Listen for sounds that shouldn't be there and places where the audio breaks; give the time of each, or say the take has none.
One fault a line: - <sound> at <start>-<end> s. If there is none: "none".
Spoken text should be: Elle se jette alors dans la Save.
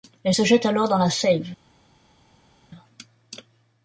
none